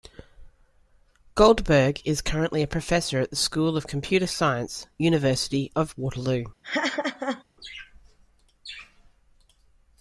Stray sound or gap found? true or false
true